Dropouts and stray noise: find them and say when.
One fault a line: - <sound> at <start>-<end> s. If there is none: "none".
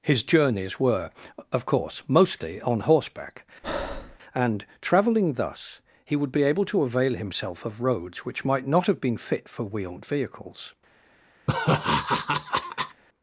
- breath at 3.6-4.2 s
- laugh at 11.5-13.0 s